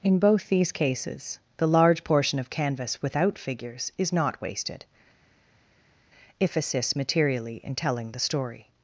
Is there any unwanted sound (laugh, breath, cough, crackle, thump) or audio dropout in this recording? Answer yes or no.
no